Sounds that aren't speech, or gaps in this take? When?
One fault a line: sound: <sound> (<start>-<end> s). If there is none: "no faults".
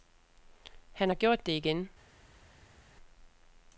no faults